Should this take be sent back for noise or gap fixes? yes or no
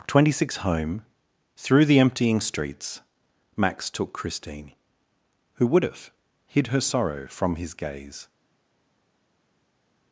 no